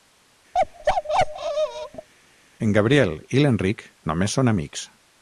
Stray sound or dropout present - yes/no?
yes